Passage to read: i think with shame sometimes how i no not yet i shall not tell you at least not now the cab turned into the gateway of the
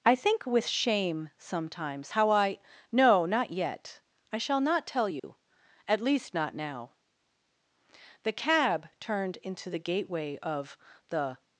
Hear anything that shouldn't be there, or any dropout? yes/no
yes